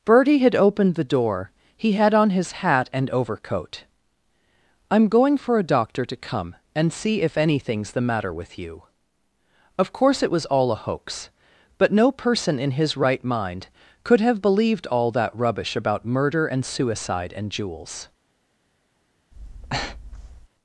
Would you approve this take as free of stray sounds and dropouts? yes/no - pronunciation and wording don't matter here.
no